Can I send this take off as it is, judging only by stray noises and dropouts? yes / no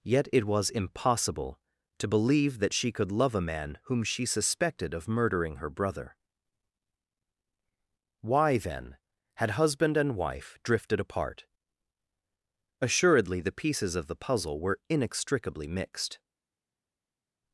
yes